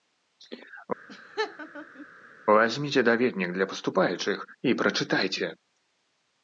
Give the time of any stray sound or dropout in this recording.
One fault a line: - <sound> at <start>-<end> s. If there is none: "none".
- laugh at 1.1-2.1 s